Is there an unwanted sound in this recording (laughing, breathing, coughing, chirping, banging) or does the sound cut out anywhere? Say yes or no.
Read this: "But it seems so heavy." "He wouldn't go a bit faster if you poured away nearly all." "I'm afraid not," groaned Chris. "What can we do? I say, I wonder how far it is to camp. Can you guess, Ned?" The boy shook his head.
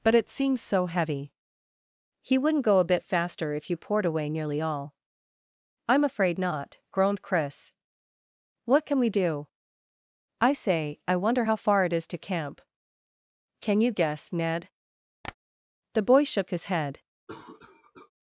yes